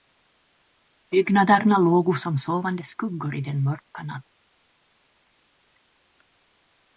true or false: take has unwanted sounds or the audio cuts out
false